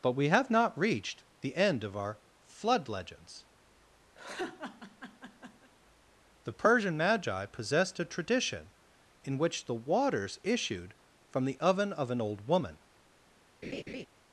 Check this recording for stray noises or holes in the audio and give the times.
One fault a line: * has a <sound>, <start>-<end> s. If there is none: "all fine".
* has a laugh, 4.2-5.7 s
* has a laugh, 13.6-14.1 s